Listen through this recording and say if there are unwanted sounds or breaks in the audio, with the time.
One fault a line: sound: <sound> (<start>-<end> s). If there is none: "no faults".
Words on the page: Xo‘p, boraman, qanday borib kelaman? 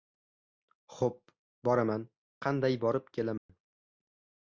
sound: dropout (3.4-3.5 s)